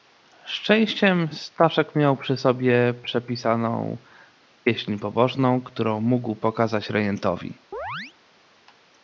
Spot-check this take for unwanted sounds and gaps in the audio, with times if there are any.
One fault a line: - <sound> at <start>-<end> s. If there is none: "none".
- chirp at 7.7-8.1 s